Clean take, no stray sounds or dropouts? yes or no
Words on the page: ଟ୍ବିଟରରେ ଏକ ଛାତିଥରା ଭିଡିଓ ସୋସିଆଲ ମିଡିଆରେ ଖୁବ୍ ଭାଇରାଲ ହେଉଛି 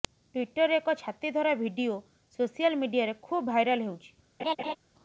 no